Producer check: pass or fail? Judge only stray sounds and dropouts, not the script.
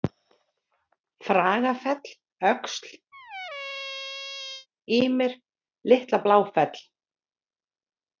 fail